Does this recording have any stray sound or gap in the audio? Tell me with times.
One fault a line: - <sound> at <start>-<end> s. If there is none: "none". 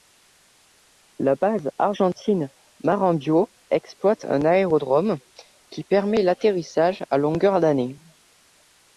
none